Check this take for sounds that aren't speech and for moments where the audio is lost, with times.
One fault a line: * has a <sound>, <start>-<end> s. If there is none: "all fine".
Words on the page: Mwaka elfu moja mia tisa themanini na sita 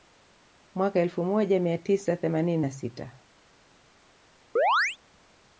* has a chirp, 4.6-5.0 s